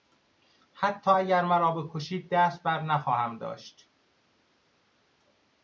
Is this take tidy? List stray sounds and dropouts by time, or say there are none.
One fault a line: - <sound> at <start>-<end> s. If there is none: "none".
none